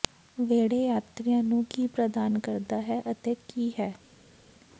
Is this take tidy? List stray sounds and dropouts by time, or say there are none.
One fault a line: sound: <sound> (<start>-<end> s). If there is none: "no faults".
no faults